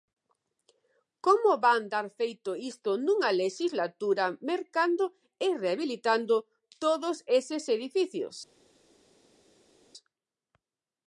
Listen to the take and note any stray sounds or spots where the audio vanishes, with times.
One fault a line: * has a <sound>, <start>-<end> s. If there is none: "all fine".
all fine